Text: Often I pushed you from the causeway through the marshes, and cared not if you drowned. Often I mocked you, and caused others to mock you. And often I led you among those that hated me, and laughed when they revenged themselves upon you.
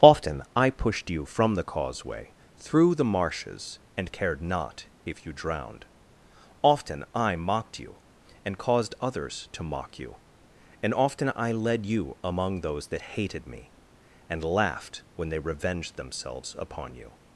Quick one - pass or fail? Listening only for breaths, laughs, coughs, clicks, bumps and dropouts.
pass